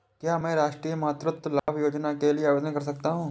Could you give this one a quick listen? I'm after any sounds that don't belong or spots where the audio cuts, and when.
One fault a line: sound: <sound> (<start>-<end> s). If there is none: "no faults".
sound: dropout (1.6-1.7 s)